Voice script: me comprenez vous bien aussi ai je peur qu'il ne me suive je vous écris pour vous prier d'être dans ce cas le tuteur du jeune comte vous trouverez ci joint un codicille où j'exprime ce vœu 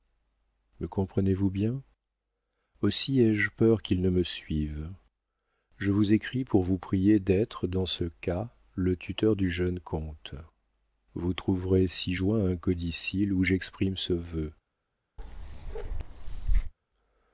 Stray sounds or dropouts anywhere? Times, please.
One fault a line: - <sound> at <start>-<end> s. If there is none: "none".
- bark at 15.2-16.7 s